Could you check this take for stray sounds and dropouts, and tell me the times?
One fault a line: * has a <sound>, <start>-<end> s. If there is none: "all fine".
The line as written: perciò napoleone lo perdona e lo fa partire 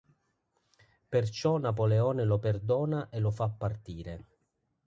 all fine